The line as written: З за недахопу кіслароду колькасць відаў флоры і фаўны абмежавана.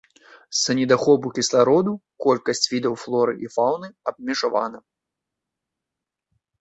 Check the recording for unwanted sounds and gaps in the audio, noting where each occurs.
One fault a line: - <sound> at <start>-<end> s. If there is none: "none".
none